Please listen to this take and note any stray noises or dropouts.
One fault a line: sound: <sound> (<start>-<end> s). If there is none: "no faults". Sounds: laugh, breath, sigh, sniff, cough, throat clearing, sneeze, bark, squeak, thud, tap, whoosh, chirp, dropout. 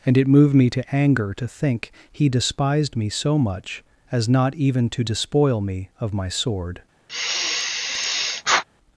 sound: sigh (7.1-8.6 s)